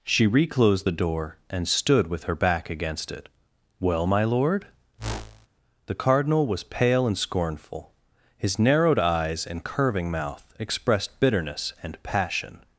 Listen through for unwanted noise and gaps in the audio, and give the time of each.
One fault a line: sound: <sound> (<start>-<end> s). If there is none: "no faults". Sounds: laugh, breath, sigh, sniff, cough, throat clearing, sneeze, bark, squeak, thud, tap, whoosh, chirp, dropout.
sound: whoosh (5.0-5.5 s)